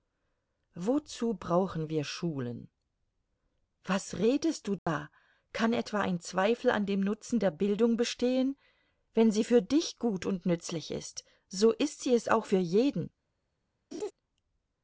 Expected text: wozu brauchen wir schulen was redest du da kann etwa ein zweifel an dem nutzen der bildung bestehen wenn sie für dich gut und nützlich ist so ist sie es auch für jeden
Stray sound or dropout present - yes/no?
yes